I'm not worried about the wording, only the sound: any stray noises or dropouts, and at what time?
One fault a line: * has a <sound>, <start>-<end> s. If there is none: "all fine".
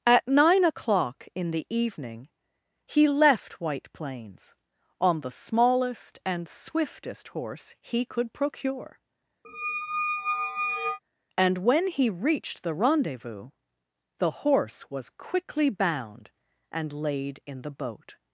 * has a squeak, 9.4-11.0 s